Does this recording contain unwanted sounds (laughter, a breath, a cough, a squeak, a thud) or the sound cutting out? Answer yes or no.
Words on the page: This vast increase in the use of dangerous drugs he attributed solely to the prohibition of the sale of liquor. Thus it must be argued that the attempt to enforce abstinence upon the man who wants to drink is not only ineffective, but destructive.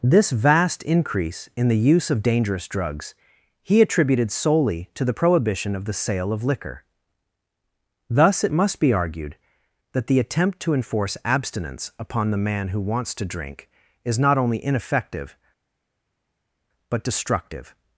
no